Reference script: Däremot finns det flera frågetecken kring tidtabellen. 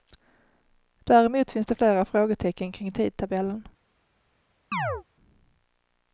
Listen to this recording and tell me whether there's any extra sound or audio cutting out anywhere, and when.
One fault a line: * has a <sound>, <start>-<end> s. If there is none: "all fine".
* has a chirp, 4.7-5.0 s